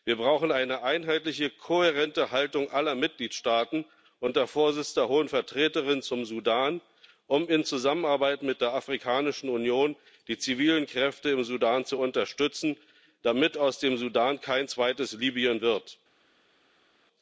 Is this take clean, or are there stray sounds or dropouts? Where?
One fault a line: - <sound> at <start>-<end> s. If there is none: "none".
none